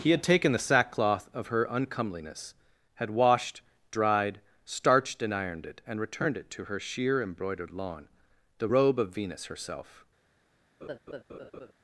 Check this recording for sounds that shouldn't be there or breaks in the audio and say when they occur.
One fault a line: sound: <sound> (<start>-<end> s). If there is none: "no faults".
sound: laugh (10.8-11.7 s)